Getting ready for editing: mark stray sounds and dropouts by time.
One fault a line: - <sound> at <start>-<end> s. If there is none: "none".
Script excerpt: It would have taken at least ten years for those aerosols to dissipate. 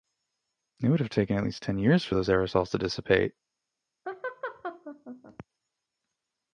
- laugh at 4.1-5.5 s